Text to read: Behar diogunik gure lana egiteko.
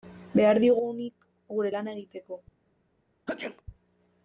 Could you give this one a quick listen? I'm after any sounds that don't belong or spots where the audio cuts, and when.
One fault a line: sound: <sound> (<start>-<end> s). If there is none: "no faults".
sound: sneeze (3.3-3.6 s)